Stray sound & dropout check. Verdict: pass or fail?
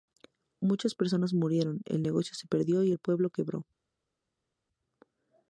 pass